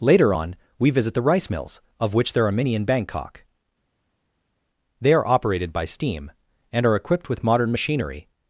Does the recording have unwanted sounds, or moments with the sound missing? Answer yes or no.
no